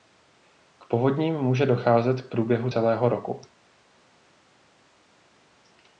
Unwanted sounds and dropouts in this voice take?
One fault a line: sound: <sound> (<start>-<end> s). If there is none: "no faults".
no faults